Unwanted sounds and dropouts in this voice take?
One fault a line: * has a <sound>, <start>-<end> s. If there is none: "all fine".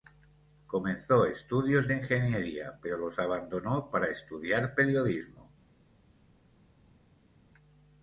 all fine